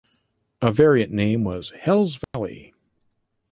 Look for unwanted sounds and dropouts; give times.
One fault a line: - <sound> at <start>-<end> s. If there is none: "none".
- dropout at 2.2-2.3 s